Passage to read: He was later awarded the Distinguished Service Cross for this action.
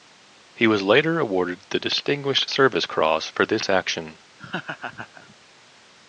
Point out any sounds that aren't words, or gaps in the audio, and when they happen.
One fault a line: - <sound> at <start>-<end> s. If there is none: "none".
- laugh at 4.4-5.4 s